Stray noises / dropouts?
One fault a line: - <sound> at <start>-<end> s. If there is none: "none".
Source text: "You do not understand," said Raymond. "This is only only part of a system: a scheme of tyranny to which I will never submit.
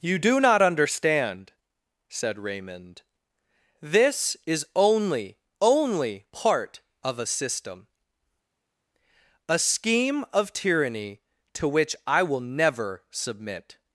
none